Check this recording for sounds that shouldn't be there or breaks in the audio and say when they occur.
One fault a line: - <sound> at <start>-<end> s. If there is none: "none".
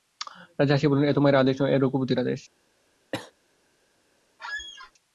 - cough at 3.1-3.3 s
- squeak at 4.4-4.9 s